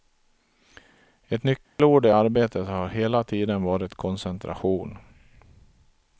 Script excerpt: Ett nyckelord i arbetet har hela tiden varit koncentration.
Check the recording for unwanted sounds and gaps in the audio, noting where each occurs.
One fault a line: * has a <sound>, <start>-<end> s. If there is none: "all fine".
* has a dropout, 1.6-1.8 s